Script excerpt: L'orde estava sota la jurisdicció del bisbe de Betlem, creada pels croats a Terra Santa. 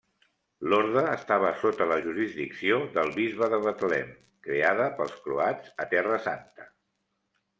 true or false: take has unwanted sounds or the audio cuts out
false